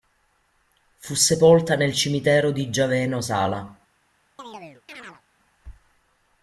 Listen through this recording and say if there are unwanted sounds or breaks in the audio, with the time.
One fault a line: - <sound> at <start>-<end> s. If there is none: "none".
- chirp at 4.4-5.2 s